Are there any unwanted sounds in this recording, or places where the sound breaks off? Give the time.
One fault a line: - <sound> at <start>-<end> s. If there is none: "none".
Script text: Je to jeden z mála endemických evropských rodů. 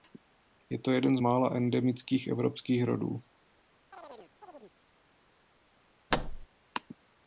- chirp at 3.9-4.8 s
- thud at 6.1-6.5 s